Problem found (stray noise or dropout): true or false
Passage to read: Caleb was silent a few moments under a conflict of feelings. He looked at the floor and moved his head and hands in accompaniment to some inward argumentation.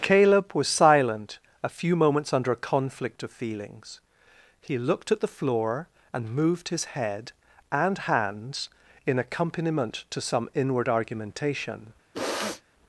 true